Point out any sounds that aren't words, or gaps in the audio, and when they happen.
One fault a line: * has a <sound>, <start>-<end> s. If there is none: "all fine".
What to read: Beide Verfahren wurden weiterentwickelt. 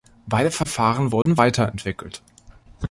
* has a dropout, 1.2-1.3 s